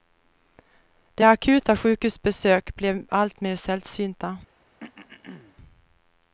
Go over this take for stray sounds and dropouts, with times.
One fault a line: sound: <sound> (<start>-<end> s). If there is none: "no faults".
sound: throat clearing (4.8-5.6 s)